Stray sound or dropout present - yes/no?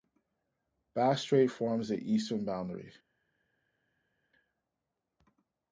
no